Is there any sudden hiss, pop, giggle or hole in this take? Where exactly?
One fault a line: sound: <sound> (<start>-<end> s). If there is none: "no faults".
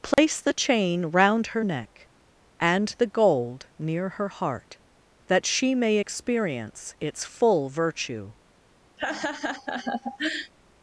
sound: dropout (0.1-0.2 s)
sound: laugh (9.0-10.5 s)